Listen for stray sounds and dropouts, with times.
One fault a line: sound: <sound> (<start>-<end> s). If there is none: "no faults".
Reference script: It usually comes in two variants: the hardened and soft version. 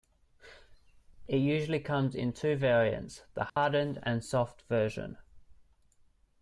sound: dropout (3.5-3.6 s)